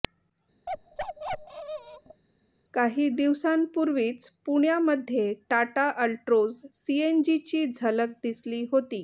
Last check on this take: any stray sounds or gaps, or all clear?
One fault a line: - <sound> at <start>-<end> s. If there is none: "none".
- bark at 0.7-2.2 s